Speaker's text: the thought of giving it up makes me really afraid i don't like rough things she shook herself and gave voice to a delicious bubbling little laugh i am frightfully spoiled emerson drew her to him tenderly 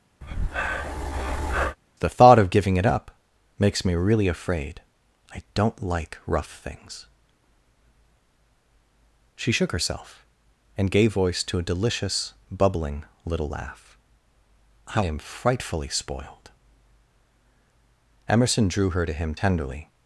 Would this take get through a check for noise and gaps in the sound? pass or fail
fail